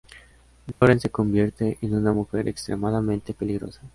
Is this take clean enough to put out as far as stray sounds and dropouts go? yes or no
no